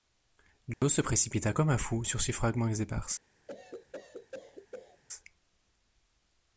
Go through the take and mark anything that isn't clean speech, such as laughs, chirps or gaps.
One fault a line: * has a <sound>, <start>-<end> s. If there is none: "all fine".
* has a dropout, 0.7-0.8 s
* has a cough, 3.5-5.0 s